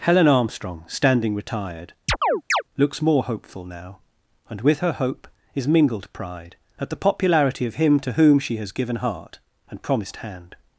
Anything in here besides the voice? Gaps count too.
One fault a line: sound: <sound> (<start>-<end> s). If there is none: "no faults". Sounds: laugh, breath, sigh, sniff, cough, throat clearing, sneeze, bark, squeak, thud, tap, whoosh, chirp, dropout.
sound: chirp (2.1-2.6 s)